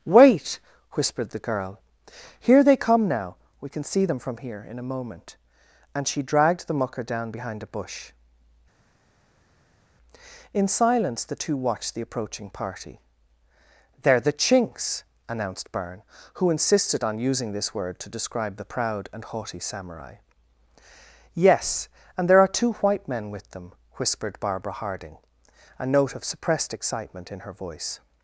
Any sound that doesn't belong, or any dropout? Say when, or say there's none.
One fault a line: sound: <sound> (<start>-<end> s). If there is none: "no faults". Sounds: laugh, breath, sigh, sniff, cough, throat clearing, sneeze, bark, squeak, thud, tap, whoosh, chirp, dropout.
no faults